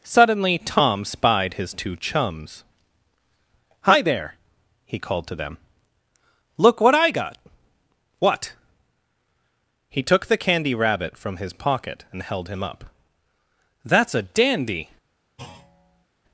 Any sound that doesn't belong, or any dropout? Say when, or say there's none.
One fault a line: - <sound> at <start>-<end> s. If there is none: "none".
- thud at 15.4-16.1 s